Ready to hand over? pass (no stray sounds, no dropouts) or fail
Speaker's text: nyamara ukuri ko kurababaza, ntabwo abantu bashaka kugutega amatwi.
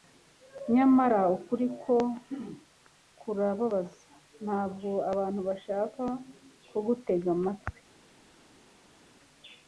pass